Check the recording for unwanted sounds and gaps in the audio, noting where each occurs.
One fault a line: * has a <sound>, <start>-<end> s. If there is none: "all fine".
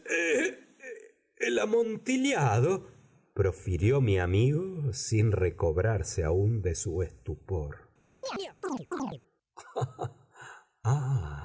* has a chirp, 8.2-9.2 s